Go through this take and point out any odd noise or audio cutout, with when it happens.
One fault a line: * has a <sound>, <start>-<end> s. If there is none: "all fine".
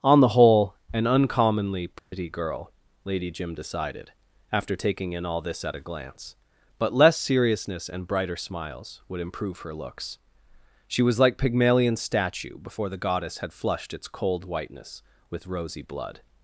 * has a dropout, 2.0-2.1 s